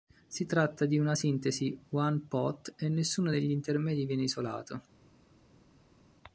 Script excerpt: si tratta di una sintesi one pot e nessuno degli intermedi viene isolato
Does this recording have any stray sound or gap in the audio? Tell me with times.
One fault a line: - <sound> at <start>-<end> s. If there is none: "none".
none